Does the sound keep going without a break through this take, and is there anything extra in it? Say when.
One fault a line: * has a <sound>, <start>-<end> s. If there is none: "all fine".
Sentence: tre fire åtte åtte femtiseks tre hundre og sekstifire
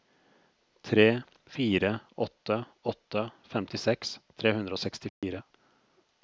* has a dropout, 5.1-5.2 s